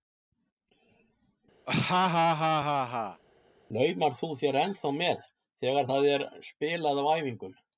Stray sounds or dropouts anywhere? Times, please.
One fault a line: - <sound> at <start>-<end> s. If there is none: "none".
- laugh at 1.7-3.2 s